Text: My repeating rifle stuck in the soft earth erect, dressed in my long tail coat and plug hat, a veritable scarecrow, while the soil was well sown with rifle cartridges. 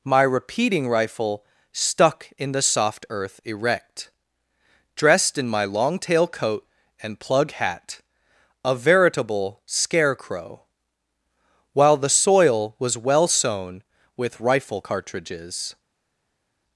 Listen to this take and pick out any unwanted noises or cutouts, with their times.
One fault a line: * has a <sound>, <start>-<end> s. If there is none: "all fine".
all fine